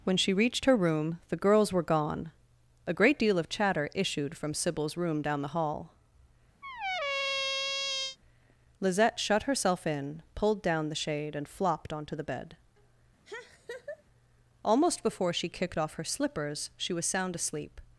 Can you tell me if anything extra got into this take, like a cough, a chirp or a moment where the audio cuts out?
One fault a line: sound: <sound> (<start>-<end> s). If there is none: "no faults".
sound: squeak (6.6-8.2 s)
sound: laugh (13.2-14.0 s)